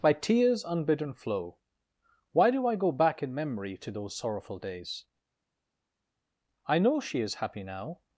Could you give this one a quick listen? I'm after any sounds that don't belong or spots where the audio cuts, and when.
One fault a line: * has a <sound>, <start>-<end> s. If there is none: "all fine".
all fine